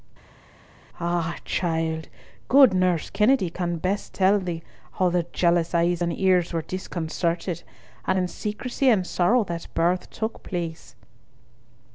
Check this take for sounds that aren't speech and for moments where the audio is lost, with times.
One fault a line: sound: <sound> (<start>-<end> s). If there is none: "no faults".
no faults